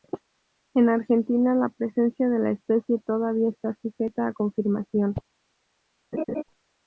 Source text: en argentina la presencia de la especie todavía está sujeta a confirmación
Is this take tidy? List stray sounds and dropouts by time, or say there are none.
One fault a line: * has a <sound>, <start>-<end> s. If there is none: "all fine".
* has a laugh, 6.1-6.4 s